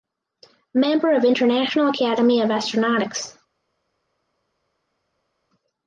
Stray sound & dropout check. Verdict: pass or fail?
pass